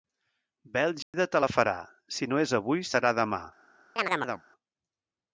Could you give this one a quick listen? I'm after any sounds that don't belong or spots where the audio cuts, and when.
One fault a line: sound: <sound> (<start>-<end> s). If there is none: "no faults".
sound: dropout (1.0-1.1 s)
sound: chirp (4.0-4.4 s)